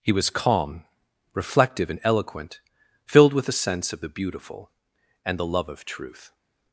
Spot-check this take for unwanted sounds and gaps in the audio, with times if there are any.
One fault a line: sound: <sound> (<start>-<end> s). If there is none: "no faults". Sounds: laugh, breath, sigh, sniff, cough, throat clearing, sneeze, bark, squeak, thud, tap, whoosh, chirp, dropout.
no faults